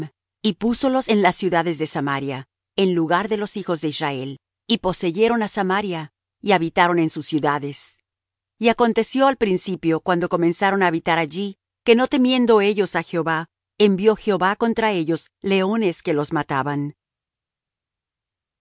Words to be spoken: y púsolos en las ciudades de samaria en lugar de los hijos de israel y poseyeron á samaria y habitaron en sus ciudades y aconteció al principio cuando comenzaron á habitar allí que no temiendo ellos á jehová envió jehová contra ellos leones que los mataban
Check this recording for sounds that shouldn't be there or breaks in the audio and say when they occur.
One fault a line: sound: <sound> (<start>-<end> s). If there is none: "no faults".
no faults